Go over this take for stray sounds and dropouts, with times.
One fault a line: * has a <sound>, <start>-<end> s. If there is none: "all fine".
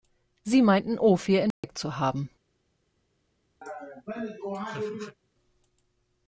* has a dropout, 1.5-1.6 s
* has a laugh, 3.6-5.2 s